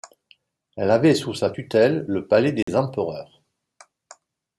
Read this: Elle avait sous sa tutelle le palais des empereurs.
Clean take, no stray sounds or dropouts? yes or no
no